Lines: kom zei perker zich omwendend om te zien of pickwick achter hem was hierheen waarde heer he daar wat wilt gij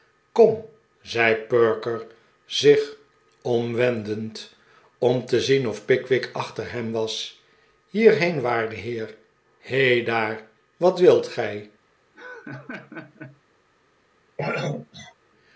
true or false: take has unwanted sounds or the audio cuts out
true